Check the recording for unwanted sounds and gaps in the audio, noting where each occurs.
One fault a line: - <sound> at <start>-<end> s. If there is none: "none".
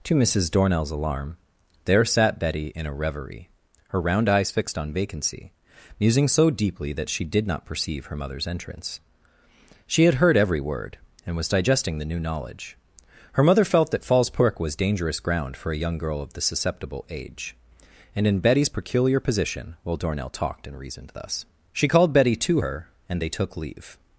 none